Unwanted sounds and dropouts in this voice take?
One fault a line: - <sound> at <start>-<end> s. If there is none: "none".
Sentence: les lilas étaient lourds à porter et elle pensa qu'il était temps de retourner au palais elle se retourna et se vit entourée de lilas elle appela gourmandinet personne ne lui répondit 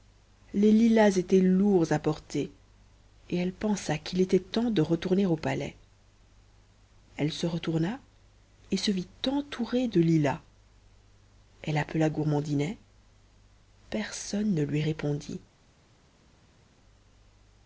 none